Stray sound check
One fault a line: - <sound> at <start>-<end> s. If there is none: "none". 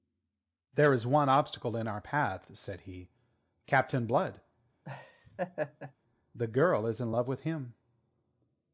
- laugh at 4.8-5.9 s